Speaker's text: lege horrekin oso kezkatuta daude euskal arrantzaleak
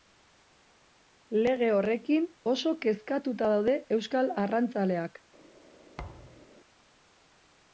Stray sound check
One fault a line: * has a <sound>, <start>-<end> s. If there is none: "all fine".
* has a thud, 6.0-6.5 s